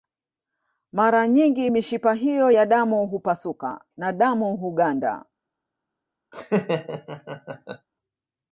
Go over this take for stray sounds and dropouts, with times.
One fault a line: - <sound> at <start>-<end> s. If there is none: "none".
- laugh at 6.3-7.9 s